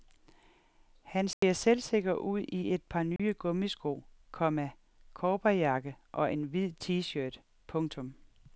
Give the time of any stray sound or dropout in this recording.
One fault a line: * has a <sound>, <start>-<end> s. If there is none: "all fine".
* has a dropout, 1.3-1.4 s
* has a dropout, 3.2-3.2 s